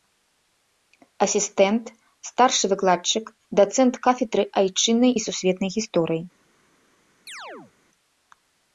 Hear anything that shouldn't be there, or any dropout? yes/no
yes